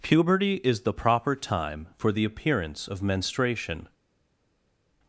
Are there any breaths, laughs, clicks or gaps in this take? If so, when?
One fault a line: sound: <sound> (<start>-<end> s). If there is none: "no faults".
no faults